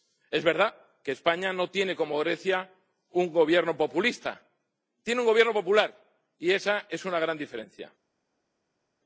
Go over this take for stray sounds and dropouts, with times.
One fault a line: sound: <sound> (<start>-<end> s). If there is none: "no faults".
no faults